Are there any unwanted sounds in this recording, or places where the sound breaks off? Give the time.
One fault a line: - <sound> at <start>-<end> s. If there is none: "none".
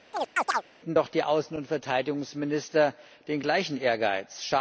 - chirp at 0.1-0.6 s